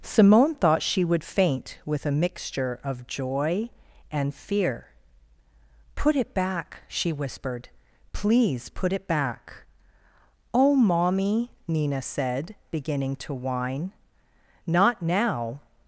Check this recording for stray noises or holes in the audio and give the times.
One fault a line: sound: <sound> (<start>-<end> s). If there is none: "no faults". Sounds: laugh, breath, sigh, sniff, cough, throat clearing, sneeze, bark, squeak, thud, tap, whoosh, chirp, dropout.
no faults